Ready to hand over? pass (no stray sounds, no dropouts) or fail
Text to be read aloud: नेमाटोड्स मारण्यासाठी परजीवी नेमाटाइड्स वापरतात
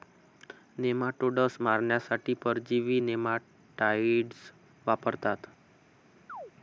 fail